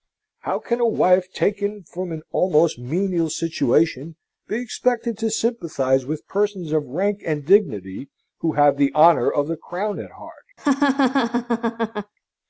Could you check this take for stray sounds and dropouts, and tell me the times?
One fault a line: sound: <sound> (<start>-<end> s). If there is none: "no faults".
sound: laugh (10.6-12.1 s)